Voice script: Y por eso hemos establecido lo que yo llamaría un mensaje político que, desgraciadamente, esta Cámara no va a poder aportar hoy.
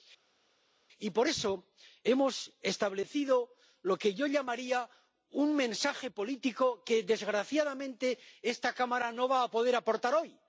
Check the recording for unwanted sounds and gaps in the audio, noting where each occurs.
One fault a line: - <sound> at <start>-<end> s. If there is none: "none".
none